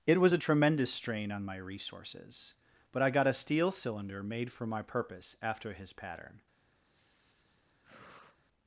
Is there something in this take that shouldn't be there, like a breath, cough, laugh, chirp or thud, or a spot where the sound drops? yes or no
yes